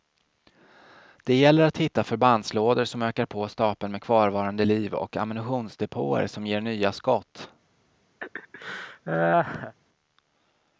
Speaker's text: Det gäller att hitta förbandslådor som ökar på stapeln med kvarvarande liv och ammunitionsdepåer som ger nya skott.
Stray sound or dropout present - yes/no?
yes